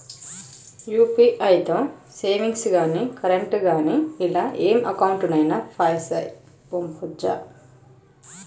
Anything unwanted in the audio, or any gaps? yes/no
no